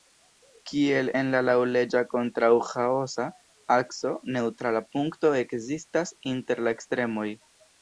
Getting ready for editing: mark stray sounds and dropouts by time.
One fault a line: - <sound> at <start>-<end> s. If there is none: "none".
none